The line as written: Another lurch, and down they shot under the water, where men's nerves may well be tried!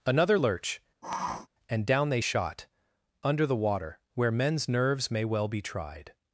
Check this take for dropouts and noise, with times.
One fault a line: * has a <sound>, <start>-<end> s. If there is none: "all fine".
* has a sniff, 1.0-1.5 s